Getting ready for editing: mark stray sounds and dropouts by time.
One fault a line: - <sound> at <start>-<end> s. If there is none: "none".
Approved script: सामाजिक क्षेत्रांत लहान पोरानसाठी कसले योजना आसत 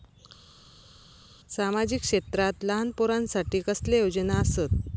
none